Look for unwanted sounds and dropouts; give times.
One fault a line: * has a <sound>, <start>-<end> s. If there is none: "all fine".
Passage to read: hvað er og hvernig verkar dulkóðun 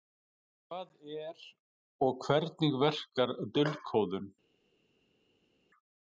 all fine